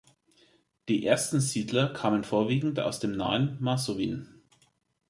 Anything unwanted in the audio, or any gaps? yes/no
no